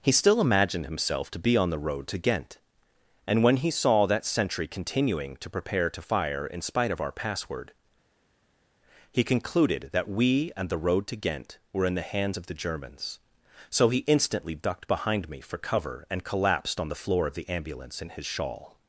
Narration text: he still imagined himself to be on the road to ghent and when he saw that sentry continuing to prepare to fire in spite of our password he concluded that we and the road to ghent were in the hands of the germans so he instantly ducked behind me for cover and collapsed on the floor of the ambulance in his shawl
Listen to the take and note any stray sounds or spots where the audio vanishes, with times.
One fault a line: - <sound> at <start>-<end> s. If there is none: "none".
none